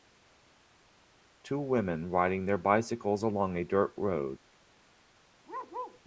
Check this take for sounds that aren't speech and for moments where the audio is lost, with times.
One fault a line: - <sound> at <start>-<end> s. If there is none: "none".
- bark at 5.5-6.0 s